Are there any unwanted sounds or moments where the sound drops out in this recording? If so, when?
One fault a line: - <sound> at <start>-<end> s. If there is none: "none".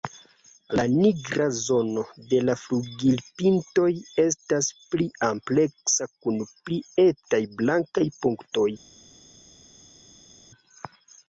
none